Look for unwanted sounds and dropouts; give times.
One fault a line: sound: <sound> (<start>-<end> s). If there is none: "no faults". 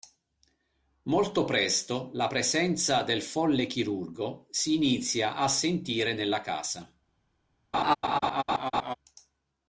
sound: laugh (7.7-8.9 s)